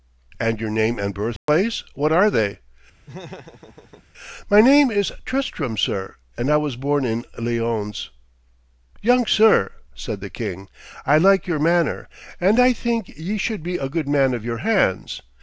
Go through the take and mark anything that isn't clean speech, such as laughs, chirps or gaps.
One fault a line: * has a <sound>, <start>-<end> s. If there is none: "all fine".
* has a dropout, 1.4-1.5 s
* has a laugh, 3.1-4.1 s